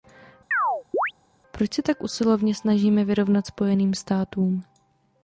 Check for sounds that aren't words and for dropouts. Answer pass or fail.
fail